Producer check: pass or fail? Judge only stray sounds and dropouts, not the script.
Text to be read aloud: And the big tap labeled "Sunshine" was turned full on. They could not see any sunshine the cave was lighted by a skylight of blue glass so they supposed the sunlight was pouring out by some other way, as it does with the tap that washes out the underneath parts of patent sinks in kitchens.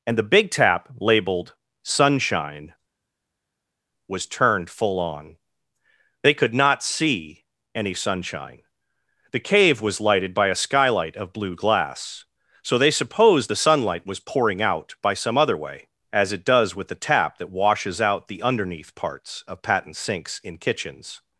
pass